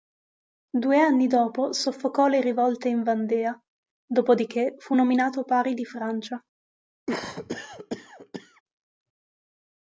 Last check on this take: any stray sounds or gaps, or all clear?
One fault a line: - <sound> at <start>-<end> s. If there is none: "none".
- cough at 7.1-8.6 s